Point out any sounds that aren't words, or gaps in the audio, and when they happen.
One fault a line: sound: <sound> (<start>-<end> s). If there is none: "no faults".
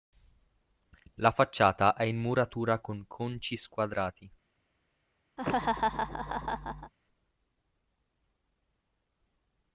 sound: laugh (5.4-6.9 s)